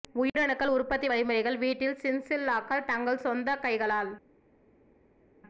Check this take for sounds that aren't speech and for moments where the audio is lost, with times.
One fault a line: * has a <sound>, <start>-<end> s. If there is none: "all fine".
all fine